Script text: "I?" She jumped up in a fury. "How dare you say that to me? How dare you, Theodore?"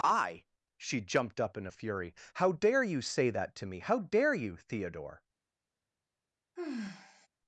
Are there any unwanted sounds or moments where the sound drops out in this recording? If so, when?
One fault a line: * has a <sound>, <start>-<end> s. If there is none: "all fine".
* has a sigh, 6.6-7.3 s